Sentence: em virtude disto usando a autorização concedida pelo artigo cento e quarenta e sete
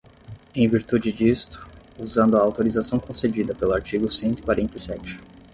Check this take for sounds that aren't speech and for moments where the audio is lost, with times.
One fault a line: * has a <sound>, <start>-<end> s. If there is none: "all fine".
all fine